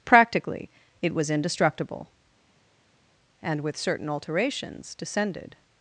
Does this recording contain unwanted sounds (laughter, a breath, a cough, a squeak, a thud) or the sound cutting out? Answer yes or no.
no